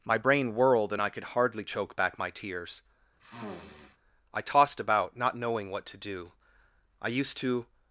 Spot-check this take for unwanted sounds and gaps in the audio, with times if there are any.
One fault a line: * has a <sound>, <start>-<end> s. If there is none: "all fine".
* has a sniff, 3.2-4.0 s